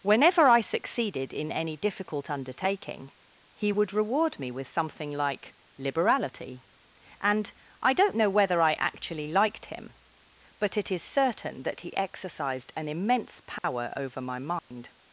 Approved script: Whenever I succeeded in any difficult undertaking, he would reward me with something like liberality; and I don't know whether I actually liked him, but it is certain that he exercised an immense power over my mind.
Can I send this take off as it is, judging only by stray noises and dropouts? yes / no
no